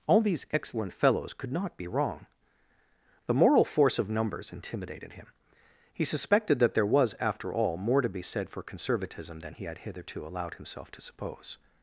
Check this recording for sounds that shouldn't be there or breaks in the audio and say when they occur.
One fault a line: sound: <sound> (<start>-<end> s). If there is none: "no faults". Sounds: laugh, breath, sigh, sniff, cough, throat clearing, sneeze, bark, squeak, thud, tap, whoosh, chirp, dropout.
no faults